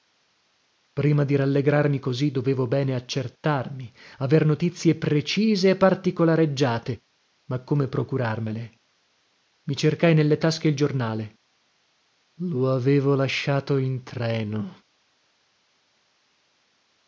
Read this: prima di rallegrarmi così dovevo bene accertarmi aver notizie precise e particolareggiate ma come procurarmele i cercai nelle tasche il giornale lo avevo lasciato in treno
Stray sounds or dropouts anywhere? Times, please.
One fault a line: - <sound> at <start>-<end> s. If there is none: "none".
none